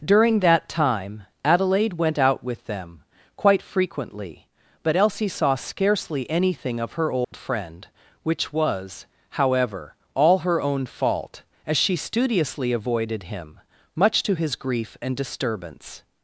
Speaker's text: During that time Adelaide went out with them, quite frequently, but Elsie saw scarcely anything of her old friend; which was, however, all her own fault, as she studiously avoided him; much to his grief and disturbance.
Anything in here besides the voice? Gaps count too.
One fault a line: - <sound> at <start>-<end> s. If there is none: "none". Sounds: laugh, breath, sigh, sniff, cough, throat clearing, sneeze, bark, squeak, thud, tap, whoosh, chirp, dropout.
- dropout at 7.2-7.3 s